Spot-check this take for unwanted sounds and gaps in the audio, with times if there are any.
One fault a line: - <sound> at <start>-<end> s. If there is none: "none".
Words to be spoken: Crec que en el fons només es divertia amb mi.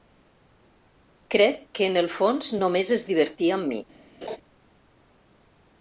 - laugh at 4.2-4.4 s